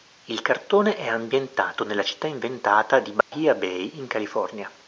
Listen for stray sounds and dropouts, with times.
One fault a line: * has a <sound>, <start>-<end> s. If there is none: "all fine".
* has a dropout, 3.2-3.3 s